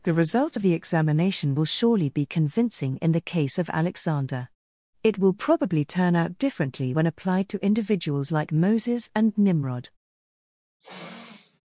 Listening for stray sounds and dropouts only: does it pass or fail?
fail